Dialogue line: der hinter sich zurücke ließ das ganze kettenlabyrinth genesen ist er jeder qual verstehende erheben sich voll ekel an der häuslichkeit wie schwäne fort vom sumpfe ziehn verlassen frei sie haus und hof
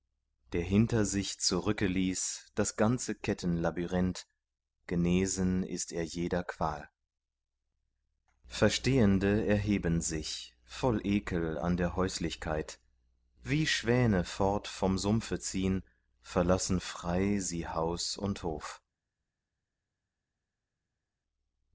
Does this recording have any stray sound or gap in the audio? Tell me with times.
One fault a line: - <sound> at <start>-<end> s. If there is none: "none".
none